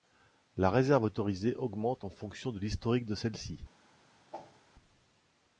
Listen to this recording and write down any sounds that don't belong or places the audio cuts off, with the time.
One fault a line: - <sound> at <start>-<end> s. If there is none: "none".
- whoosh at 4.3-4.6 s